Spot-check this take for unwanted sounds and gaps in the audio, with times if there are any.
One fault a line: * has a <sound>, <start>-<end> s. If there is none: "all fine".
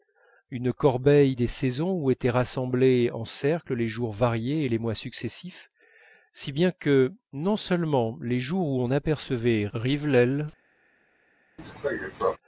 * has a cough, 11.6-12.4 s